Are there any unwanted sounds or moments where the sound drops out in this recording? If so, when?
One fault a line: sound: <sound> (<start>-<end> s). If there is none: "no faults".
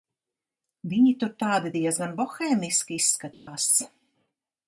sound: dropout (3.3-3.5 s)